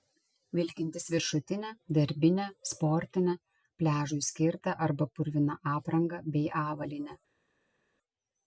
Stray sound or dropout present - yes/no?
no